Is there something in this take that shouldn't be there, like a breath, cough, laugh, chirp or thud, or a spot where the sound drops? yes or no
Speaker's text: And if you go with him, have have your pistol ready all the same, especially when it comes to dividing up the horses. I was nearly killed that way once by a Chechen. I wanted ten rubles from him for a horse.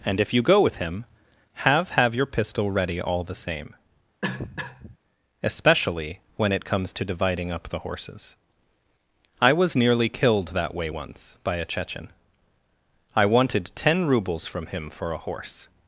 yes